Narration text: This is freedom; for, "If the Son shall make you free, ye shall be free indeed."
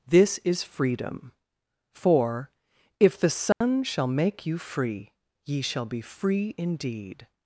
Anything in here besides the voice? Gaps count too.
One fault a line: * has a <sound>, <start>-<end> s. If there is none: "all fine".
* has a dropout, 3.5-3.6 s